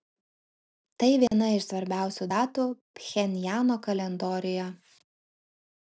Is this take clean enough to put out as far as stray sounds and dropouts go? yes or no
no